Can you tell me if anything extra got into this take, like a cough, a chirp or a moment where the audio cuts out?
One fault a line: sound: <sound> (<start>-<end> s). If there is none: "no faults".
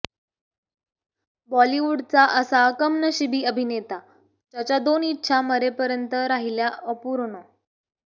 no faults